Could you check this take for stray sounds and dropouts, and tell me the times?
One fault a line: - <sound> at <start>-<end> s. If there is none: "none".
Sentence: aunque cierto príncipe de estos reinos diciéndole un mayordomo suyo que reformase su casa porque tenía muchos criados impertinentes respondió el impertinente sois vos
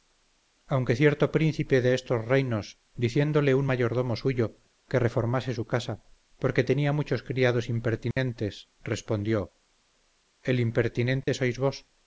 - dropout at 8.1-8.2 s
- dropout at 11.2-11.3 s